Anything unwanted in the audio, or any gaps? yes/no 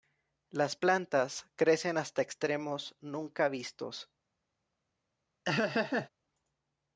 yes